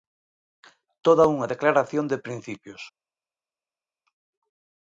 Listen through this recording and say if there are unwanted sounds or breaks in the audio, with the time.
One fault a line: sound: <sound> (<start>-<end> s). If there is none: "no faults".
no faults